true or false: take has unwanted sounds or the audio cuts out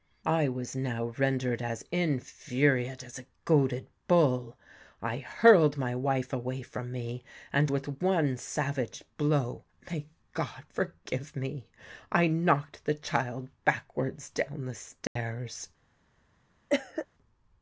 true